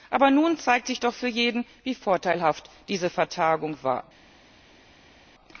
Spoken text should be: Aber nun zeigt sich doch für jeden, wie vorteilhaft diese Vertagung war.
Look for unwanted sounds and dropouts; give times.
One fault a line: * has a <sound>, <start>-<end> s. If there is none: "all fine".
all fine